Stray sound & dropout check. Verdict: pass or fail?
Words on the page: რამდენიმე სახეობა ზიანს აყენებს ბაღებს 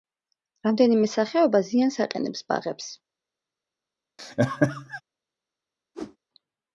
fail